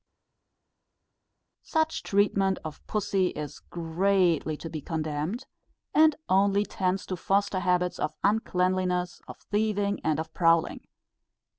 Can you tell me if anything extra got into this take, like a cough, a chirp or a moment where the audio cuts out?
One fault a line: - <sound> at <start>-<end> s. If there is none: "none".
none